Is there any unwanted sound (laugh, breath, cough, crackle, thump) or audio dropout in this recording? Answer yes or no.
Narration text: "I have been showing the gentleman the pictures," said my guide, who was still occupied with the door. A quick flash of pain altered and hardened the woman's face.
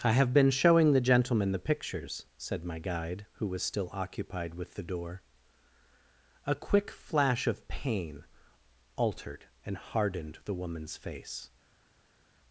no